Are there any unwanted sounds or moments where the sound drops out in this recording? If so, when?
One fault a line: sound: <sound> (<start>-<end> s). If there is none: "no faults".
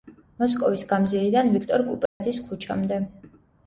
sound: dropout (2.1-2.2 s)